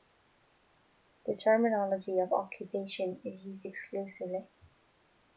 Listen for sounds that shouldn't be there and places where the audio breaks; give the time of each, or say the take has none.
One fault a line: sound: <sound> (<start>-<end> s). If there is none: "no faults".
no faults